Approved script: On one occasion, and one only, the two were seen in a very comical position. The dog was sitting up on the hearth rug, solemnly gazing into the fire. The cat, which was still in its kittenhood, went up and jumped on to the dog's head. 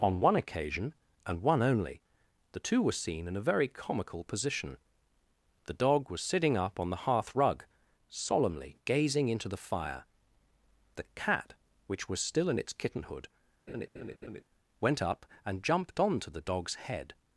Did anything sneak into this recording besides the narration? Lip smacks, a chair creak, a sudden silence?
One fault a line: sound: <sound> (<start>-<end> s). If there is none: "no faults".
sound: laugh (13.7-14.4 s)